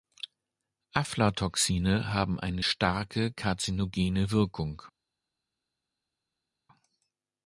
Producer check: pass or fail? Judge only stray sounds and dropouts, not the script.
pass